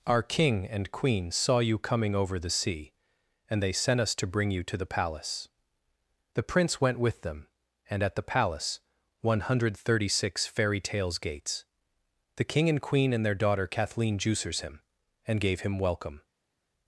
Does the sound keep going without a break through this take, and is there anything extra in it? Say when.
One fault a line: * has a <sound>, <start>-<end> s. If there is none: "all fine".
all fine